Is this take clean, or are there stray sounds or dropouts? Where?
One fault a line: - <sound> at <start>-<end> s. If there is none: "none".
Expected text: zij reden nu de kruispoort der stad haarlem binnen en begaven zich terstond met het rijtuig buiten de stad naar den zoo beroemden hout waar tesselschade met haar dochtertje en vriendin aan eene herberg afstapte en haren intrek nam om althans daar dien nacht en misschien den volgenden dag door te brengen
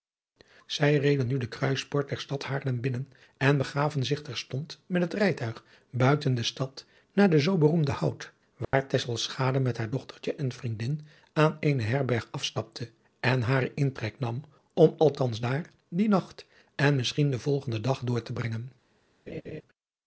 - dropout at 8.6-8.7 s
- laugh at 19.3-19.6 s